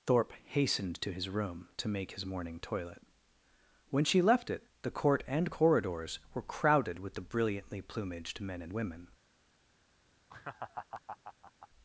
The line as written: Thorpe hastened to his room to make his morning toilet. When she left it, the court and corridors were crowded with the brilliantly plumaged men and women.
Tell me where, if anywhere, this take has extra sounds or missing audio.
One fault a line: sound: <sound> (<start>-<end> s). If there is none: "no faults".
sound: laugh (10.3-11.7 s)